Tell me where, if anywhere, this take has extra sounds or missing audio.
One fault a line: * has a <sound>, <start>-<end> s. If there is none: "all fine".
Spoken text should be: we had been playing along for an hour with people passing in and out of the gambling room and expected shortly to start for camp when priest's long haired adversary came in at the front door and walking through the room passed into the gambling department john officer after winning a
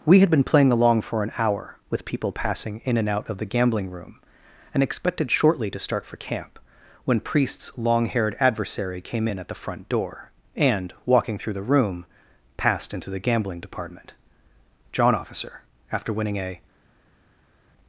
all fine